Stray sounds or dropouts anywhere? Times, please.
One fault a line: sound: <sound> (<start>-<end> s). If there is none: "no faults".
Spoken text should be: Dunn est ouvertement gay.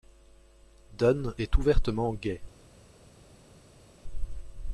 no faults